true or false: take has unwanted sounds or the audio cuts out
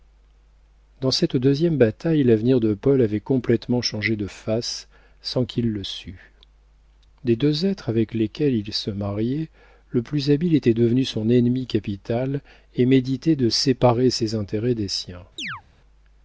true